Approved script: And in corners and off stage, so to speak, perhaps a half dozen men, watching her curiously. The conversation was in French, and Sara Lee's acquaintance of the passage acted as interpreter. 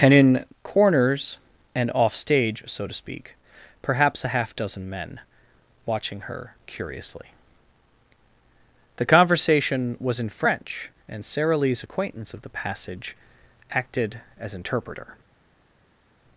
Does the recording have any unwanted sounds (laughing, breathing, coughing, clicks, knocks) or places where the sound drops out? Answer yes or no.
no